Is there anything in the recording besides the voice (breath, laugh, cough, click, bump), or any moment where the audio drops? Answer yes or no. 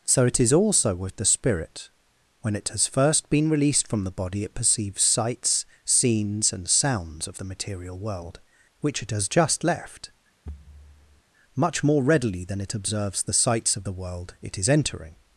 yes